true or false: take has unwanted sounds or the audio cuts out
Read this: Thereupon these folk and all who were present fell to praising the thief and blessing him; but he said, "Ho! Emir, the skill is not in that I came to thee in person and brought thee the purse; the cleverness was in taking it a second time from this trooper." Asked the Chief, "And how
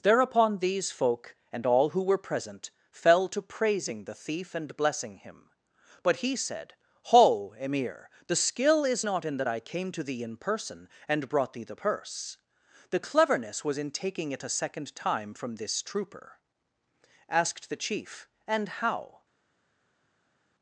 false